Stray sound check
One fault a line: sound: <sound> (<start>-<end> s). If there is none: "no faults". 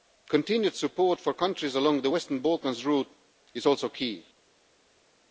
no faults